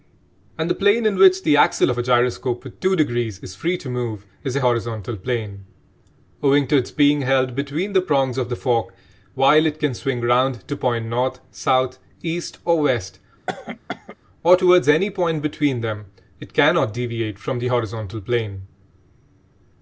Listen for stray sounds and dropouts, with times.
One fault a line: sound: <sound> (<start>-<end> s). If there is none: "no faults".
sound: cough (13.5-14.2 s)